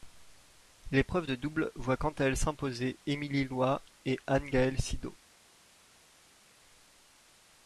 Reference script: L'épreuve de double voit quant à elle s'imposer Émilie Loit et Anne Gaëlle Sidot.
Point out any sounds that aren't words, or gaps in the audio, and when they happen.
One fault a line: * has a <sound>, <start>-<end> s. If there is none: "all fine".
all fine